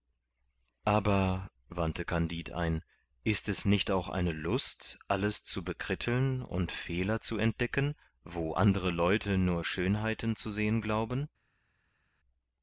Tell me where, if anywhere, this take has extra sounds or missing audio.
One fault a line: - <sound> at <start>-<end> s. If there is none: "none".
none